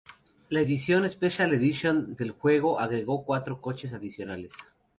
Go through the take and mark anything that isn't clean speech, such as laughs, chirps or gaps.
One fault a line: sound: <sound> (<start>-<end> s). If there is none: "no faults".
no faults